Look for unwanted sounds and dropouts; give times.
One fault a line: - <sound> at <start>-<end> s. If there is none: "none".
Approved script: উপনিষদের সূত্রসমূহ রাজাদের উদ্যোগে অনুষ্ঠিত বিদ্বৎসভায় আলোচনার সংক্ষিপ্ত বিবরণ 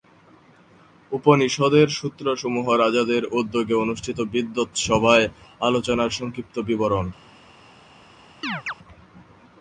- chirp at 8.4-8.7 s